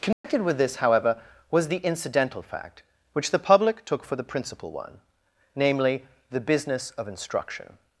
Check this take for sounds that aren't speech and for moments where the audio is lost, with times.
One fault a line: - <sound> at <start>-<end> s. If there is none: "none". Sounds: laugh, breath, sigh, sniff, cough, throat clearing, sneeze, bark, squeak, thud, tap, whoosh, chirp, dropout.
- dropout at 0.1-0.2 s